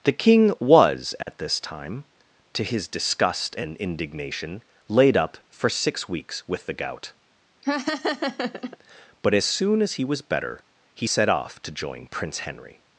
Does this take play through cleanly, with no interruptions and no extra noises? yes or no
no